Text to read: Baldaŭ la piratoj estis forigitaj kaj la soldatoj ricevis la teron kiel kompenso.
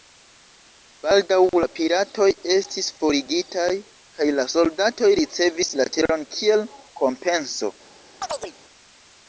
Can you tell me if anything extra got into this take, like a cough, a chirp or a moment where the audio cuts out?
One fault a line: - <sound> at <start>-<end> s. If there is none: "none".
- chirp at 8.2-8.5 s